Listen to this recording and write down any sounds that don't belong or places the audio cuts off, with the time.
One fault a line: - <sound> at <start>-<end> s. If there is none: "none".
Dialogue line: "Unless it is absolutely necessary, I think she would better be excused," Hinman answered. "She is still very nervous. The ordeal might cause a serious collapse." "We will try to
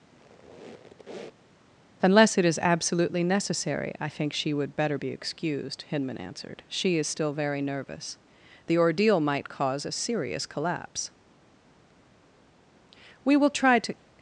- squeak at 0.1-1.5 s